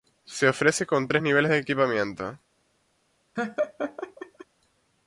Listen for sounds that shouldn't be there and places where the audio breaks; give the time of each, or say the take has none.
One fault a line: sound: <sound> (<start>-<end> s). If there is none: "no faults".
sound: laugh (3.4-4.5 s)